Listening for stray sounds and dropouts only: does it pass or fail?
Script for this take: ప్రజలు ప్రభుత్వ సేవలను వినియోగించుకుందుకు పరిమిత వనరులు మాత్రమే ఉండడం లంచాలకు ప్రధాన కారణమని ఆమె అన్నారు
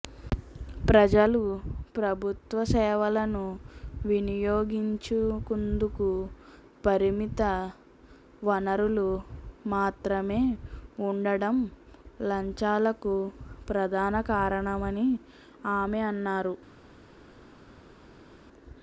pass